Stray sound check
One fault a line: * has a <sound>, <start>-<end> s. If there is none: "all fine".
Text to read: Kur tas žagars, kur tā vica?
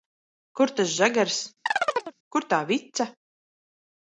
* has a chirp, 1.7-2.2 s